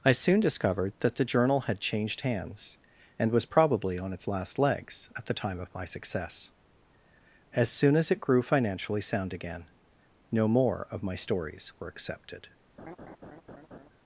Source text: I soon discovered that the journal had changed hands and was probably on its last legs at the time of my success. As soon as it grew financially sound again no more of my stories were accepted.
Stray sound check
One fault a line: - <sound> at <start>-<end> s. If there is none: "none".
- laugh at 12.8-13.9 s